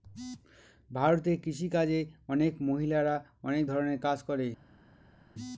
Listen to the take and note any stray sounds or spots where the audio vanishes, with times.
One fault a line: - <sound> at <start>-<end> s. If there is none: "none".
none